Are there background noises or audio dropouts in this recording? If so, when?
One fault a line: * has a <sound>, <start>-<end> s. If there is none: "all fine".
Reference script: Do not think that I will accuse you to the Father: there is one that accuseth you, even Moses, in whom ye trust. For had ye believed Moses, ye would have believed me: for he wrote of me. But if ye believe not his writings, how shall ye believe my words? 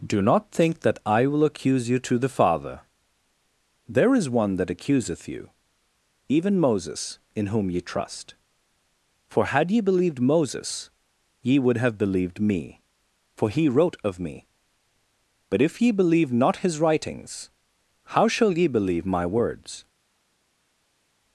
all fine